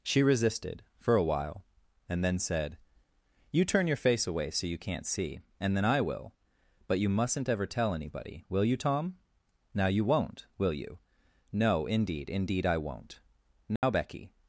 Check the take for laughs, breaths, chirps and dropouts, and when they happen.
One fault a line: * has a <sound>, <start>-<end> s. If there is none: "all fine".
* has a dropout, 13.8-13.8 s